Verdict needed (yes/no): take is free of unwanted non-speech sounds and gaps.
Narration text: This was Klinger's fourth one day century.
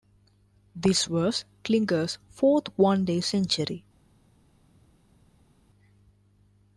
yes